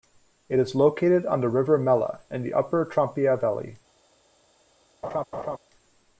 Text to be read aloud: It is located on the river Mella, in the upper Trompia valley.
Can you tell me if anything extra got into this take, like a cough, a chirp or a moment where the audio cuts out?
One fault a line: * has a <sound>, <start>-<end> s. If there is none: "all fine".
* has a laugh, 5.0-5.6 s